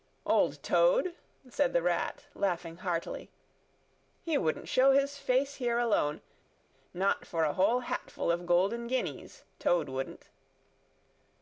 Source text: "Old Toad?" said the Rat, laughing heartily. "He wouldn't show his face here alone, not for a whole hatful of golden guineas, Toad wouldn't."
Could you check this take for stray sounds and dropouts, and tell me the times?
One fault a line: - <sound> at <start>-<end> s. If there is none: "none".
none